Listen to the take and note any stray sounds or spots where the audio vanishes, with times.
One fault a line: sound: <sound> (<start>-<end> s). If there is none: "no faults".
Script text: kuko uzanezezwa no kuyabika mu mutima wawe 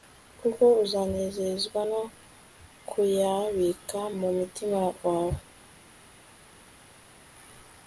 no faults